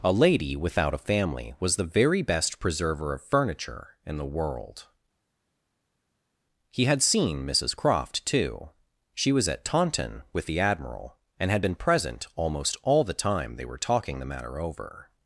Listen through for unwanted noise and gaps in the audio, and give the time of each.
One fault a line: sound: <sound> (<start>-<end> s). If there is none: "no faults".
no faults